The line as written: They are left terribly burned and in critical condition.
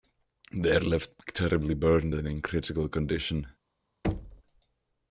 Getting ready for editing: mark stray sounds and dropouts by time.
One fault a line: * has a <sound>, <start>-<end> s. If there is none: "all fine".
* has a thud, 4.0-4.4 s